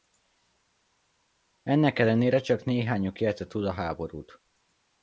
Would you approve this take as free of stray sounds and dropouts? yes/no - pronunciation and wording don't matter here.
yes